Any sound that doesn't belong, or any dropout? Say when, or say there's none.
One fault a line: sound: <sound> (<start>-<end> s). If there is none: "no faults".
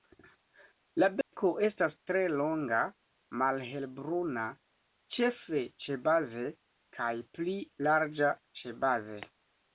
sound: dropout (1.2-1.3 s)